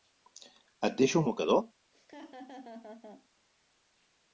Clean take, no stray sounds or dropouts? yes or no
no